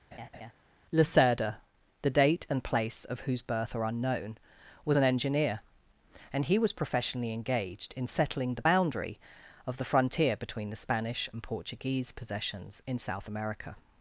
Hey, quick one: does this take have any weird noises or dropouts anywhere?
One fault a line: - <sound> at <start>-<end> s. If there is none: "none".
- laugh at 0.1-0.5 s